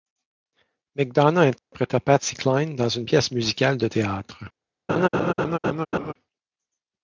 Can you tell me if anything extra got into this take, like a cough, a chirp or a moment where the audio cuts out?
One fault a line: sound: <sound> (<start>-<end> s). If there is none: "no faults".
sound: dropout (1.6-1.7 s)
sound: laugh (4.9-6.1 s)